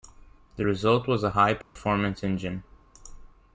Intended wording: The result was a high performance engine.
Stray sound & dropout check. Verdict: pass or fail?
fail